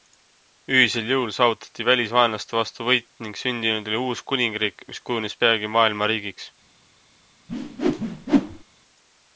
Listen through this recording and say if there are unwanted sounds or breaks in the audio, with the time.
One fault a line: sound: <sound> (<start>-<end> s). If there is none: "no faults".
sound: whoosh (7.5-8.6 s)